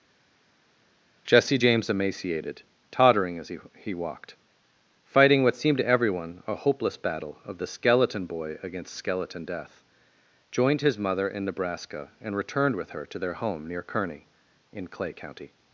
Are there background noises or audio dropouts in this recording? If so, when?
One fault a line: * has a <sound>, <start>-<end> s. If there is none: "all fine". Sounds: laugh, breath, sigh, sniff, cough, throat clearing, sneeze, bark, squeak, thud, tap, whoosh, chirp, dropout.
all fine